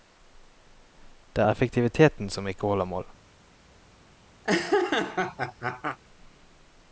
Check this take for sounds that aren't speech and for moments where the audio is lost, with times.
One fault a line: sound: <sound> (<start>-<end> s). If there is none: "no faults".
sound: laugh (4.4-6.0 s)